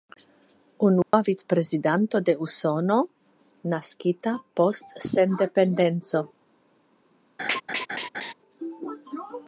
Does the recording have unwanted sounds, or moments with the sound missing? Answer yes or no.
yes